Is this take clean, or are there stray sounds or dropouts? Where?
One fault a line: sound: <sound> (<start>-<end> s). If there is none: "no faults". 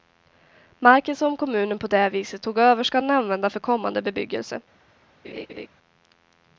sound: laugh (5.2-5.7 s)